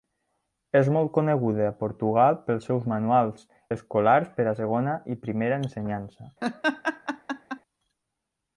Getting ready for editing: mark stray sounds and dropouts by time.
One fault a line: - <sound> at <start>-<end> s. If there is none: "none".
- laugh at 6.4-7.6 s